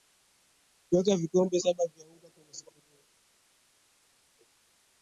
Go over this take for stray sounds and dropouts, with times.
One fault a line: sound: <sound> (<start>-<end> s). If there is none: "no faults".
no faults